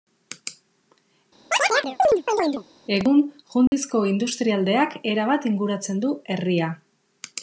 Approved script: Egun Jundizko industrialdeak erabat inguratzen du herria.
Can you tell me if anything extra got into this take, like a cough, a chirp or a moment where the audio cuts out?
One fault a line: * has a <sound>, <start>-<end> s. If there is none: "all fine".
* has a chirp, 1.5-2.6 s
* has a dropout, 3.7-3.7 s